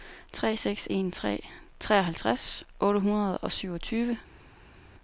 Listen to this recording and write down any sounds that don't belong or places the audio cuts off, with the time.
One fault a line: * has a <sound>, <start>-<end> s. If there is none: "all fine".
all fine